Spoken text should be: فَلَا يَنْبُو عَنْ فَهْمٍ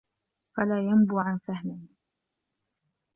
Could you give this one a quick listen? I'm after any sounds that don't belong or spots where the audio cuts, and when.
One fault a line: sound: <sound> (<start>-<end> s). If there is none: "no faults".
no faults